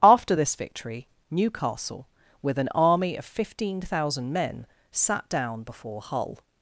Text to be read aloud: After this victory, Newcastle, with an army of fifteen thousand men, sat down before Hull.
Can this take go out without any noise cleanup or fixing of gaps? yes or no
yes